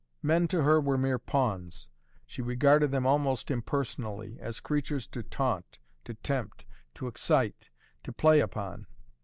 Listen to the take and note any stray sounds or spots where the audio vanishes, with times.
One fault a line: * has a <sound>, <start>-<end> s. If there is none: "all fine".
all fine